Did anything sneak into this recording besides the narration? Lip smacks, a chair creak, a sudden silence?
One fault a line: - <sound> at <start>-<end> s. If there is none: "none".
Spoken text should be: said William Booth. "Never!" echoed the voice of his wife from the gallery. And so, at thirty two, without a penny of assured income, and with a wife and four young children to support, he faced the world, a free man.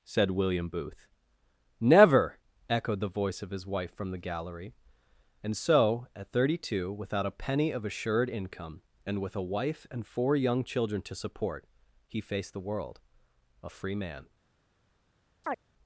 - chirp at 15.4-15.6 s